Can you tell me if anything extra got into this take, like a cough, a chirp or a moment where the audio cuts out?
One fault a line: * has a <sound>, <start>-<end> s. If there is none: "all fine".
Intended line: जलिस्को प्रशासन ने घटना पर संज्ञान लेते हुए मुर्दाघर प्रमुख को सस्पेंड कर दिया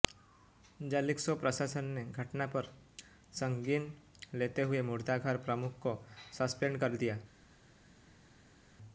all fine